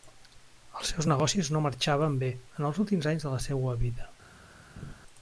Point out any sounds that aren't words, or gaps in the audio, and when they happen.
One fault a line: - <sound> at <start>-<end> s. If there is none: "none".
- laugh at 4.8-4.9 s